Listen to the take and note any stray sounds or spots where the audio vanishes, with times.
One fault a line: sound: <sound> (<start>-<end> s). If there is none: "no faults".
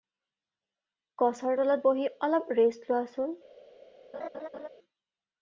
sound: laugh (4.1-4.7 s)